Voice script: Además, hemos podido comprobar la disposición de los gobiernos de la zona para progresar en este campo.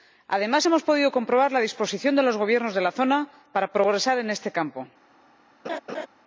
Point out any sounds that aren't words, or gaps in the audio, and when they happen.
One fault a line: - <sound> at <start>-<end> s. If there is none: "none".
- laugh at 5.6-6.1 s